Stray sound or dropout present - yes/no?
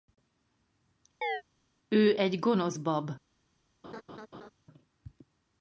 yes